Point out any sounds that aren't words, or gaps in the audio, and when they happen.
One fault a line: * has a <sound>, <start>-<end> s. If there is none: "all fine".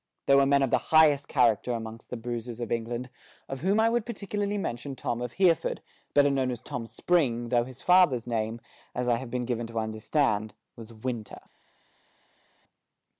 all fine